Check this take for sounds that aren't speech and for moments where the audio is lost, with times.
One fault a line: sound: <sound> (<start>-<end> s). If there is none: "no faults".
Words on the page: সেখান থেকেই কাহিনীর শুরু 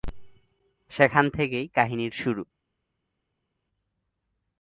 no faults